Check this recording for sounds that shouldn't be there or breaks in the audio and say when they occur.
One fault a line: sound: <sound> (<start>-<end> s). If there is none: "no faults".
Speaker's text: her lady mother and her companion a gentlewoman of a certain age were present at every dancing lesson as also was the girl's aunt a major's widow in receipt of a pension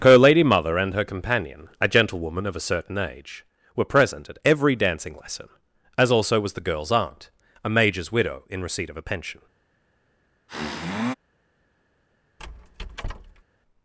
sound: sniff (10.5-11.1 s)
sound: squeak (12.4-13.4 s)